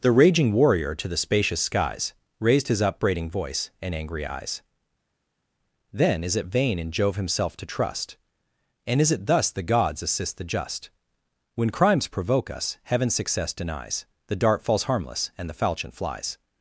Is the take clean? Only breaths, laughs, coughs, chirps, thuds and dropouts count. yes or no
yes